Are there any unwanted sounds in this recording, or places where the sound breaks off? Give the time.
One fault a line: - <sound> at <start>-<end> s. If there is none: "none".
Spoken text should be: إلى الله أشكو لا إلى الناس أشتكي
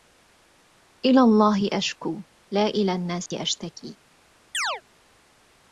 - dropout at 3.3-3.3 s
- chirp at 4.5-4.8 s